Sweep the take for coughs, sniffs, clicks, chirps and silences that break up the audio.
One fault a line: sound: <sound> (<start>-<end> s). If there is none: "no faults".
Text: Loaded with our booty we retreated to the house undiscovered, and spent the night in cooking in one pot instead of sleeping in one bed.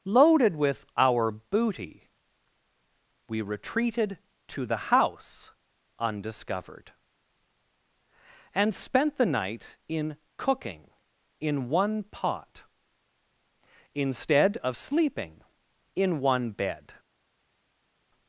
no faults